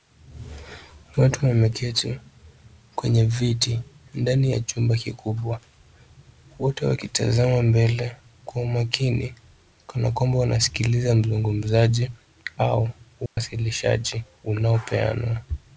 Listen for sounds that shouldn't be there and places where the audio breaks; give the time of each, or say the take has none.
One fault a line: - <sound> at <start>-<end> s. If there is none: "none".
- dropout at 13.3-13.4 s